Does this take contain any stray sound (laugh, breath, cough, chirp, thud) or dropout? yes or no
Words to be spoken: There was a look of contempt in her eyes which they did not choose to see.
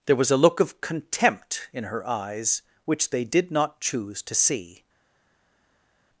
no